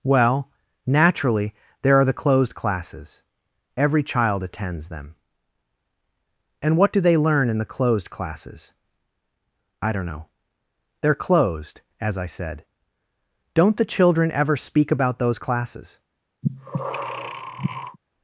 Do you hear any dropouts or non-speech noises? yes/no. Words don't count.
yes